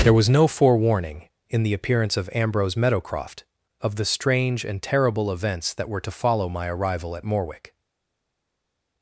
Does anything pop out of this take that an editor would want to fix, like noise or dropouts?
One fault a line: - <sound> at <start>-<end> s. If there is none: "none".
none